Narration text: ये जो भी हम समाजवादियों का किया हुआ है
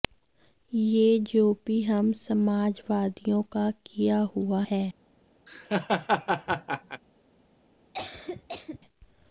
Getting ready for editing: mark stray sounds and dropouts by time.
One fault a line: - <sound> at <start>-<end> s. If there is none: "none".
- laugh at 5.5-7.0 s
- cough at 7.9-8.8 s